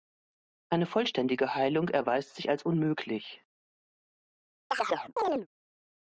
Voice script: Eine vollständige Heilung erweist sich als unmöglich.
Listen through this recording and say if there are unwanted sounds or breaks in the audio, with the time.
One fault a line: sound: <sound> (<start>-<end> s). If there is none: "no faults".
sound: chirp (4.7-5.5 s)